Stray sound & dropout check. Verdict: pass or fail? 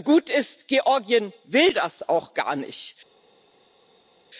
pass